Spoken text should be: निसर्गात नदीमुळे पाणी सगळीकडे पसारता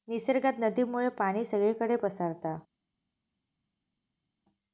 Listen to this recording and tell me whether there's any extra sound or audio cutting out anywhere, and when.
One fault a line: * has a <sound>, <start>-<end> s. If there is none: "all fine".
all fine